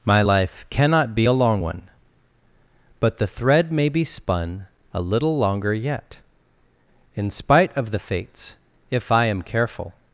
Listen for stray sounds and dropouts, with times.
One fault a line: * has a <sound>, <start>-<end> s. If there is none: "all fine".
all fine